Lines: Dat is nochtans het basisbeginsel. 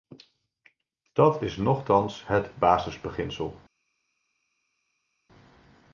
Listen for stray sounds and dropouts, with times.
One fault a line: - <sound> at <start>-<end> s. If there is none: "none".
none